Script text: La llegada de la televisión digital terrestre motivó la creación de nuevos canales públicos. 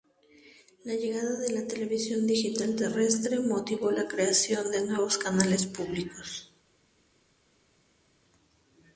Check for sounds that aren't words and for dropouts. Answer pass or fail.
pass